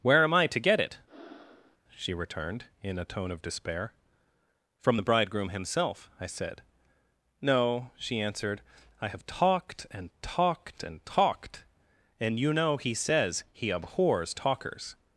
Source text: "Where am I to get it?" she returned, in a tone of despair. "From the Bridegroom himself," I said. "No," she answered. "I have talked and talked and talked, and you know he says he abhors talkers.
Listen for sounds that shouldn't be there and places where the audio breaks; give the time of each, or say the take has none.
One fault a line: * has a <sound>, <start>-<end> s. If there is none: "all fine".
* has a breath, 1.1-1.8 s